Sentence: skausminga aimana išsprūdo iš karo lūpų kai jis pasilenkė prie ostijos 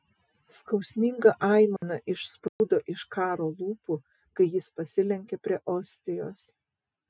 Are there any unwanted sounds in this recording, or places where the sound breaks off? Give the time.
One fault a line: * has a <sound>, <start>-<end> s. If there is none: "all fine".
* has a dropout, 1.8-1.8 s
* has a dropout, 2.5-2.6 s